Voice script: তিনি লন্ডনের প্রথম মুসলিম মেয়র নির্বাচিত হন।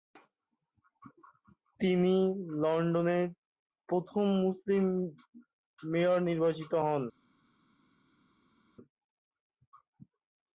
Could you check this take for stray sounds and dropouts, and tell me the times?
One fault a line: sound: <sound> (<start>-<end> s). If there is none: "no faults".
no faults